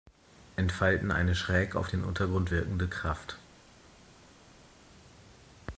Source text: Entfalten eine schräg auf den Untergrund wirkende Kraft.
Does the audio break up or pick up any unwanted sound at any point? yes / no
no